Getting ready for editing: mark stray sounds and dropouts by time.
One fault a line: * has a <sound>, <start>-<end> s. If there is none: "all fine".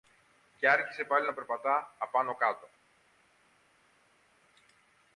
all fine